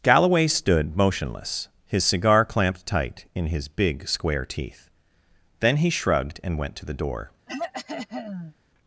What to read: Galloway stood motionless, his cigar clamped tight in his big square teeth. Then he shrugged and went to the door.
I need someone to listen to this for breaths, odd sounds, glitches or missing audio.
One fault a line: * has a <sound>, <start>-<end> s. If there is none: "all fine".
* has a throat clearing, 7.5-8.5 s